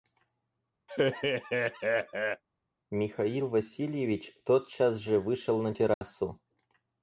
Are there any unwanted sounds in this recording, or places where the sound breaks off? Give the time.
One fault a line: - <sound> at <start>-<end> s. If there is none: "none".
- laugh at 0.9-2.4 s
- dropout at 5.9-6.0 s